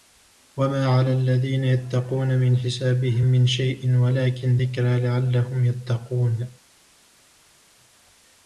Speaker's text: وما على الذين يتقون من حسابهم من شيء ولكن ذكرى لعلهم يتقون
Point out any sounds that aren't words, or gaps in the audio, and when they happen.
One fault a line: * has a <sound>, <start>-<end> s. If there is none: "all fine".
all fine